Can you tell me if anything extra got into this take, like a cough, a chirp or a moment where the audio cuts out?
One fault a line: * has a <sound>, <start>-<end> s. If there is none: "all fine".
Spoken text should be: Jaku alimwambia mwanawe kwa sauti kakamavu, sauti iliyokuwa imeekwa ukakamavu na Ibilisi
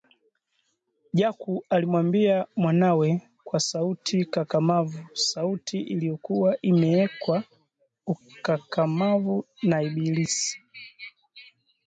all fine